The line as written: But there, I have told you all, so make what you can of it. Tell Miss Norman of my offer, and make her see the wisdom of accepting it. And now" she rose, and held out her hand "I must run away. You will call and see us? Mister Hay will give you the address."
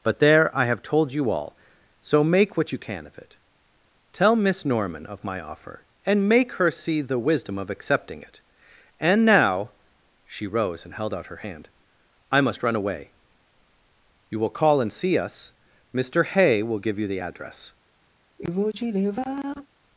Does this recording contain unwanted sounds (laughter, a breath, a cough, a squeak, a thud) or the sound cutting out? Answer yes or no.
yes